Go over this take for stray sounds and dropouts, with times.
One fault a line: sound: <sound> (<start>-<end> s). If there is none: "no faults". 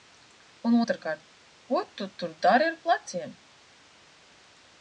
no faults